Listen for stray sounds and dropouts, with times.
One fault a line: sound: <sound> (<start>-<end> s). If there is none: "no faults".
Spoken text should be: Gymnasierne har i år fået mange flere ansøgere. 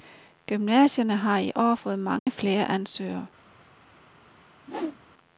sound: dropout (2.2-2.3 s)
sound: whoosh (4.6-5.0 s)